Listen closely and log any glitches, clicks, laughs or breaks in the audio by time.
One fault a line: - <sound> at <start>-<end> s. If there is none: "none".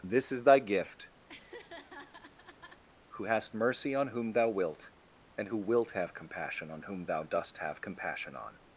- laugh at 1.3-2.8 s